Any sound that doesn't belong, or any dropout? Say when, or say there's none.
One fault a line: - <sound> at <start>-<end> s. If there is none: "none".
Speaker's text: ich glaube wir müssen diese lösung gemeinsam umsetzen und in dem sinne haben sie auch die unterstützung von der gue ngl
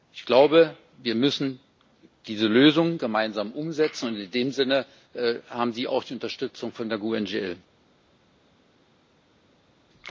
none